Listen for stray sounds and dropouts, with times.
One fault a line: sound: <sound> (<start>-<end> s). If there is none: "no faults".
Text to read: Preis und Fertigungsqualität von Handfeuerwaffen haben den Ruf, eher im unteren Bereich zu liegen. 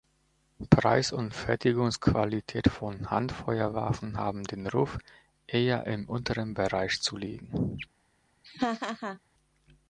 sound: laugh (8.4-9.2 s)